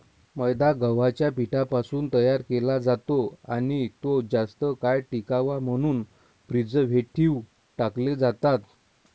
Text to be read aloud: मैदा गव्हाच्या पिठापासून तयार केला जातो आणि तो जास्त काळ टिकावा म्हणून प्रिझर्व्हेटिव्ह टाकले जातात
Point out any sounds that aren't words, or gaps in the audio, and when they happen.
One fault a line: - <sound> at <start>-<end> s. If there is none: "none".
none